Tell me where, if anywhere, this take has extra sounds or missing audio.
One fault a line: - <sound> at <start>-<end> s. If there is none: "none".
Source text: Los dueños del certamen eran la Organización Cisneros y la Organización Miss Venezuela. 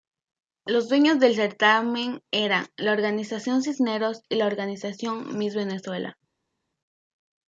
none